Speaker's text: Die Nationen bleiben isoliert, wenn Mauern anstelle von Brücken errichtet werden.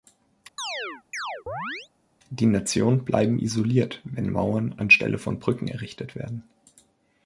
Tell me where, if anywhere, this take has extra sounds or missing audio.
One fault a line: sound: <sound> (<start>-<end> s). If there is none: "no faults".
sound: chirp (0.6-1.9 s)